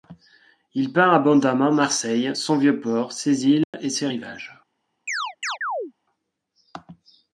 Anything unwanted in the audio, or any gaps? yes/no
yes